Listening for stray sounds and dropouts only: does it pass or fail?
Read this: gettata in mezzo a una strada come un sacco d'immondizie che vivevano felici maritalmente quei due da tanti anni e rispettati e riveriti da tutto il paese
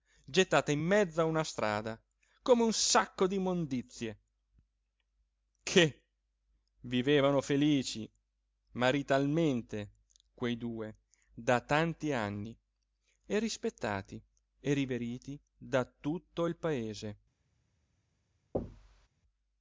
fail